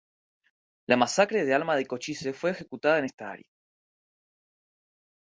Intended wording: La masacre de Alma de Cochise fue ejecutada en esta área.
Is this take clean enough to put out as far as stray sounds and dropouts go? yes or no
yes